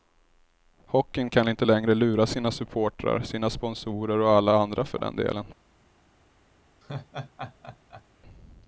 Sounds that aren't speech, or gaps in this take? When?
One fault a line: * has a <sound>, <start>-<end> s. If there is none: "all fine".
* has a laugh, 6.8-8.0 s